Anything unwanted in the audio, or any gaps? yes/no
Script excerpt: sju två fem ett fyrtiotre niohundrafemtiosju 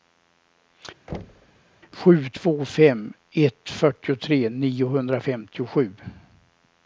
yes